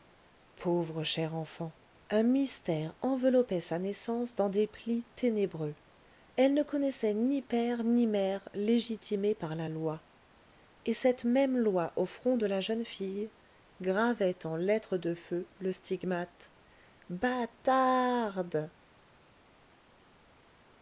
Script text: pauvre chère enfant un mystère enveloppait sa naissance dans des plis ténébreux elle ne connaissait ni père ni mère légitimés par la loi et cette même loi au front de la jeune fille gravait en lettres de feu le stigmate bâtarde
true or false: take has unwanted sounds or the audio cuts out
false